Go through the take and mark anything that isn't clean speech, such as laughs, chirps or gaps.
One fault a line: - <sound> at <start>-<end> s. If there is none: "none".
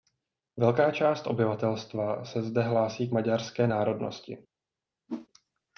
- whoosh at 5.1-5.3 s